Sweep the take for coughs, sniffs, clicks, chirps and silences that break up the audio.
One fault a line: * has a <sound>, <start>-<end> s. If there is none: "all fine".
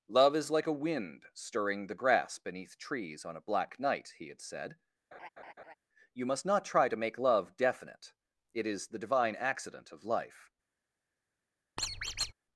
* has a laugh, 5.1-5.7 s
* has a squeak, 11.8-12.3 s